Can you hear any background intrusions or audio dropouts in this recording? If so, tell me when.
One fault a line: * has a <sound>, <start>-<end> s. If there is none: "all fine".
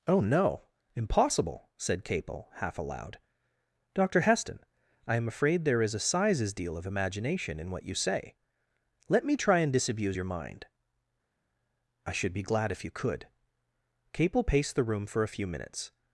all fine